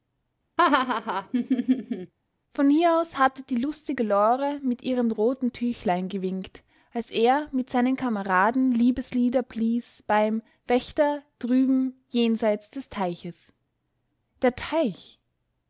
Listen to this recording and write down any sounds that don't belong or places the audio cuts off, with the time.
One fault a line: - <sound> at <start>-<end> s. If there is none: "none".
- laugh at 0.6-2.1 s